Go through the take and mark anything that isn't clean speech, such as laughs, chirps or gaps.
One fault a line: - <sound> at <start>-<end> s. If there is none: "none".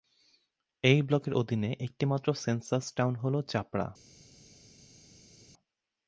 none